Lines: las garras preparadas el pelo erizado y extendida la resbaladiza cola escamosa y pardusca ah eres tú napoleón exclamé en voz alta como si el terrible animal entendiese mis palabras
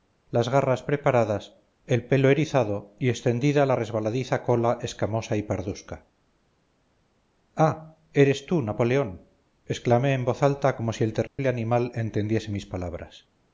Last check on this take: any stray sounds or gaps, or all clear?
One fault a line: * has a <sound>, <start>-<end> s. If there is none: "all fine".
* has a dropout, 11.3-11.4 s